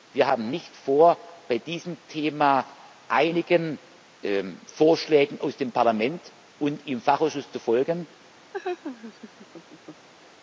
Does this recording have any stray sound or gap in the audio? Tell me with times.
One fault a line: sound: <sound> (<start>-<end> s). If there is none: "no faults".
sound: laugh (8.5-10.1 s)